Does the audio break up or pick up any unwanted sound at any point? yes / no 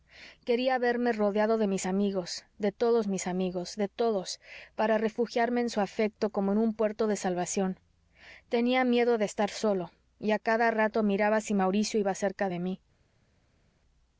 no